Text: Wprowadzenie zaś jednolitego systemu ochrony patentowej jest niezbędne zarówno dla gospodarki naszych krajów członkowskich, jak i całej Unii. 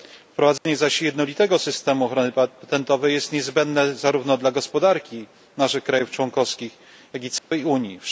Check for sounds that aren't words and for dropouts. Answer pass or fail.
fail